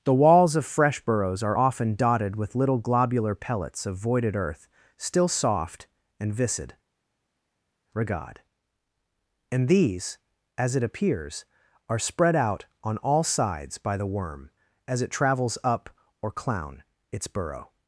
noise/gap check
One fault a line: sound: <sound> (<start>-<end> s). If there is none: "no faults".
no faults